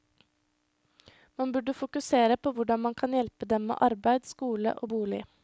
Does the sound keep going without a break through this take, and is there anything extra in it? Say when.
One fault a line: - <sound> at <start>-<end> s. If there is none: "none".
none